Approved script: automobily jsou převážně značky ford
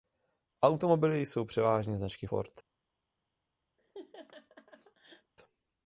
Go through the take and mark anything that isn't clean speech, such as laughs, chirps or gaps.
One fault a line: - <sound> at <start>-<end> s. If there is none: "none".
- laugh at 3.8-5.3 s